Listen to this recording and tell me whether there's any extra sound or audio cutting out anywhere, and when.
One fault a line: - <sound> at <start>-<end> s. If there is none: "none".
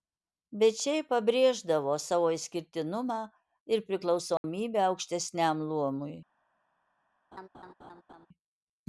- dropout at 4.4-4.4 s
- laugh at 7.3-8.3 s